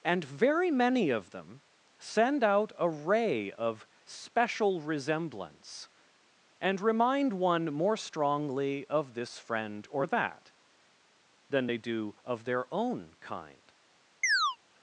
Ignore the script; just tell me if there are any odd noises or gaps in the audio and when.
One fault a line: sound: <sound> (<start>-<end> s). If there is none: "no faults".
sound: chirp (14.2-14.6 s)